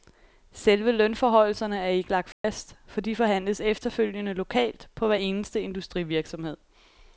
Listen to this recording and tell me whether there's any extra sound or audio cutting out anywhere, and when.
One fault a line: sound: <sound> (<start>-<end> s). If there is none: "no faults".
sound: dropout (2.3-2.4 s)